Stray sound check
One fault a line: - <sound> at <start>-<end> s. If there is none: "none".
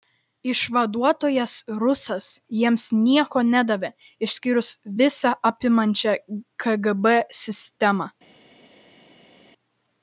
none